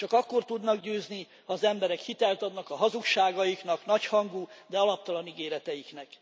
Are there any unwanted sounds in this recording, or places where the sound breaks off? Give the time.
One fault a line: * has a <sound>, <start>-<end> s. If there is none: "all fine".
all fine